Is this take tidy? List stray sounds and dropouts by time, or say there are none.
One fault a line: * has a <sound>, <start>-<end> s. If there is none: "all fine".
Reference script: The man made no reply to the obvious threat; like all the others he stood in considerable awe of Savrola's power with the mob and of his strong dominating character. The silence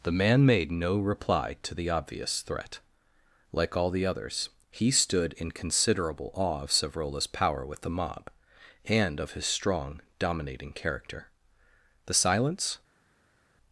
all fine